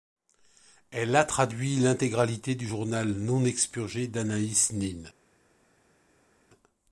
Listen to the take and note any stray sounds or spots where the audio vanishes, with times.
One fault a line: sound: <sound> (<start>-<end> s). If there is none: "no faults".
no faults